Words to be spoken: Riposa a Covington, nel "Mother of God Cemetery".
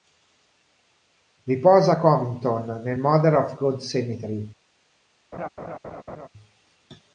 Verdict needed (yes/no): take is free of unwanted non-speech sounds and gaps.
no